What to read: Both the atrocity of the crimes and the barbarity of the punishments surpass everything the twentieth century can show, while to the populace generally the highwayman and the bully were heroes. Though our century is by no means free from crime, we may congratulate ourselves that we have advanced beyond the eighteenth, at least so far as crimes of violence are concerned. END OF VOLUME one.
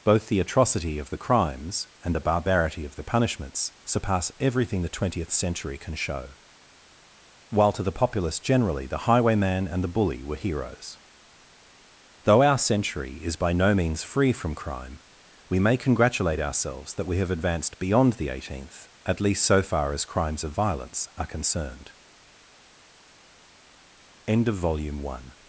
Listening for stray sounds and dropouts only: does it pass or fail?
pass